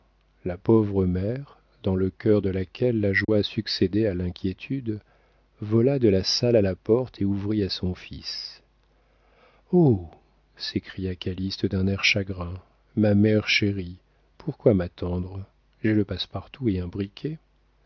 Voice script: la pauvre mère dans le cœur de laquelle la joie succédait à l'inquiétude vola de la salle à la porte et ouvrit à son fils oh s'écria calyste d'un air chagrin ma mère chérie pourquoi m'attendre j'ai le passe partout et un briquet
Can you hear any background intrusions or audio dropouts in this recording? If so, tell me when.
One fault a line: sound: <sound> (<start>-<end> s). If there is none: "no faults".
sound: dropout (3.2-3.3 s)